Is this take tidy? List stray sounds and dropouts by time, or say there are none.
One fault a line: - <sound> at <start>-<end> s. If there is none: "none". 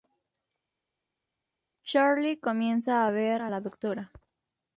none